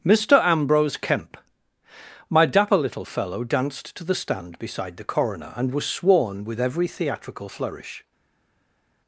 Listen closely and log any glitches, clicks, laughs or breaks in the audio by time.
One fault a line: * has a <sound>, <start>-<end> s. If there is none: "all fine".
all fine